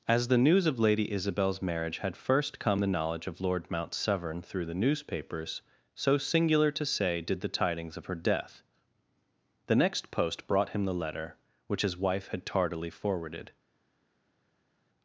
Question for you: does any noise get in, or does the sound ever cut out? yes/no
no